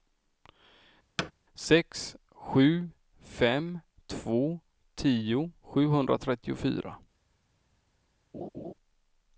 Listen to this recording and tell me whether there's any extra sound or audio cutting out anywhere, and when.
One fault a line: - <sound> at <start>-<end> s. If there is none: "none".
- thud at 1.2-1.3 s
- laugh at 8.3-8.7 s